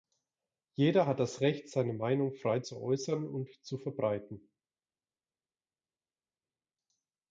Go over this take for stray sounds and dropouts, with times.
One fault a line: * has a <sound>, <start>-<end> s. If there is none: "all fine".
all fine